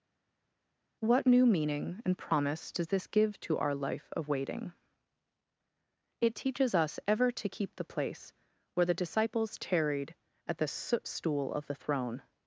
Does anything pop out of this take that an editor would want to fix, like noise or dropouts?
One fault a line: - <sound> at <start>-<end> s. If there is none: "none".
none